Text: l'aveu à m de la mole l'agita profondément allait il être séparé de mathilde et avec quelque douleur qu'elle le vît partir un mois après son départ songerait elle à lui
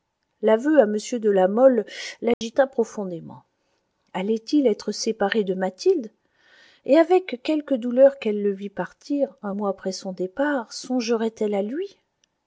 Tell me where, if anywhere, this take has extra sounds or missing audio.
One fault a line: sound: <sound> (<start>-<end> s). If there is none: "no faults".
sound: dropout (2.3-2.4 s)